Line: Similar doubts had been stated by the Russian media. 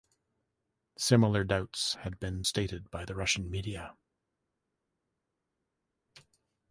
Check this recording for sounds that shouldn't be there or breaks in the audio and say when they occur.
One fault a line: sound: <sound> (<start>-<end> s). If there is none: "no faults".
no faults